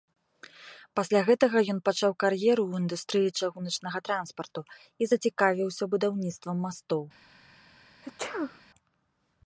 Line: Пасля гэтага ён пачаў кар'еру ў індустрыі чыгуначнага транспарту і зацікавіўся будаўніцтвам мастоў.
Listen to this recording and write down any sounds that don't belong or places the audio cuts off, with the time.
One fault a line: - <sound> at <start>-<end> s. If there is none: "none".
- sneeze at 8.0-8.6 s